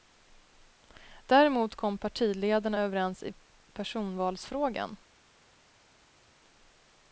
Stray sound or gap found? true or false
false